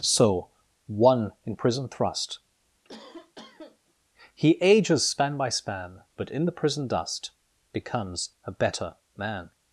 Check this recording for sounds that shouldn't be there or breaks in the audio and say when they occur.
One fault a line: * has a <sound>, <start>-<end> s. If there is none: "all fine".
* has a cough, 2.8-3.9 s